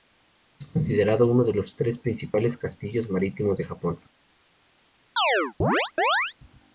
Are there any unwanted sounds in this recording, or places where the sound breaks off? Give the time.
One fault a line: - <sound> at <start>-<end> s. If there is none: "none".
- chirp at 5.2-6.3 s